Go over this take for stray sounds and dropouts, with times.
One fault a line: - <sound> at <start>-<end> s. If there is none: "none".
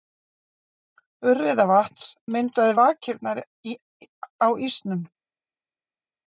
none